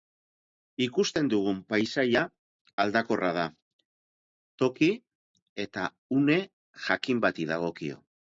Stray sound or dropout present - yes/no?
no